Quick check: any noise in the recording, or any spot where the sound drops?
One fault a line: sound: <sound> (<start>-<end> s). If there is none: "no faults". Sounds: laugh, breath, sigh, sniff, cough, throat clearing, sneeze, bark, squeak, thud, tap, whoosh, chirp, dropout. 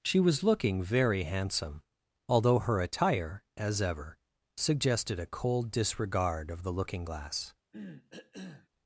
sound: cough (7.7-8.7 s)